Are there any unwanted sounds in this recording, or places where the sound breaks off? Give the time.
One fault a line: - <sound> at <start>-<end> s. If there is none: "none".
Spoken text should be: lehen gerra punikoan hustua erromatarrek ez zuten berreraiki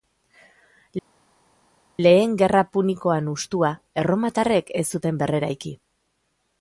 none